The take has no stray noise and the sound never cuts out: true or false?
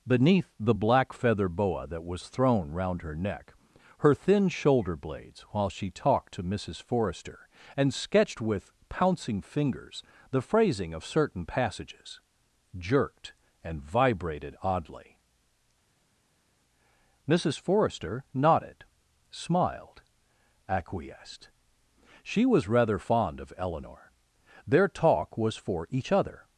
true